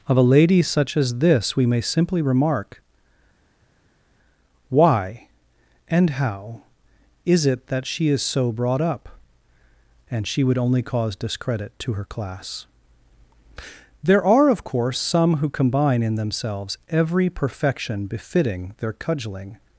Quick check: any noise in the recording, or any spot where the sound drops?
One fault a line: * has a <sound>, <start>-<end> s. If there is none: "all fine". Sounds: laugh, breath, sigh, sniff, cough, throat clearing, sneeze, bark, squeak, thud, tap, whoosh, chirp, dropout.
all fine